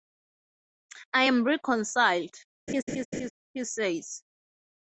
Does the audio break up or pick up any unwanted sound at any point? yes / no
yes